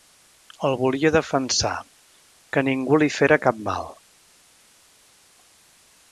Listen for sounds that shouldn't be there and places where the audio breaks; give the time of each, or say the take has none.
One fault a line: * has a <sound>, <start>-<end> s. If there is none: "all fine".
all fine